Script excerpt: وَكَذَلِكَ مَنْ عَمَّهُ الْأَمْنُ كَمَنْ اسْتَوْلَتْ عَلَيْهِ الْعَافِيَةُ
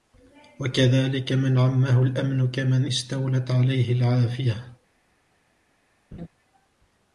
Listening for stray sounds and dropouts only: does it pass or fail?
fail